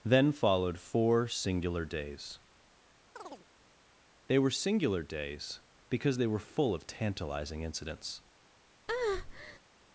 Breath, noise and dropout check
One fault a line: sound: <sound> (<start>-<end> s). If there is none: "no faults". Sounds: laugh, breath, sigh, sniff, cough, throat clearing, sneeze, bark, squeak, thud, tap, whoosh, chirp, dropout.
sound: chirp (3.2-3.5 s)
sound: breath (8.9-9.6 s)